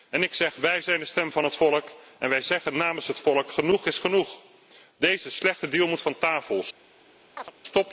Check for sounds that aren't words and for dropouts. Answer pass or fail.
fail